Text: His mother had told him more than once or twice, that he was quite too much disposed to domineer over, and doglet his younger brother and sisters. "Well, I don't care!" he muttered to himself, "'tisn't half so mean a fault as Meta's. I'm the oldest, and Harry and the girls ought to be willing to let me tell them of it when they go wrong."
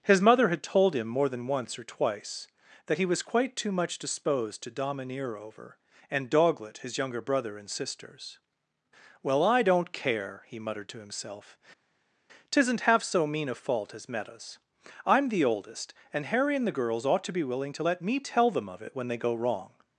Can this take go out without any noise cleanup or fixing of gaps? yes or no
yes